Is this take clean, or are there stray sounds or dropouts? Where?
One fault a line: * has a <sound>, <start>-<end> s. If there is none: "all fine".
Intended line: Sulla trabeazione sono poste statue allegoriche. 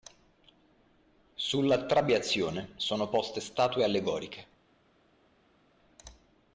all fine